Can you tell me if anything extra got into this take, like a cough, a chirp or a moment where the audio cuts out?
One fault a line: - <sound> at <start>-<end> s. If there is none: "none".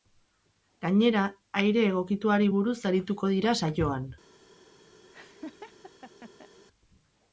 - laugh at 5.1-6.5 s